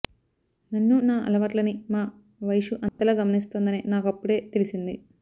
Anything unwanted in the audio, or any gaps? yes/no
yes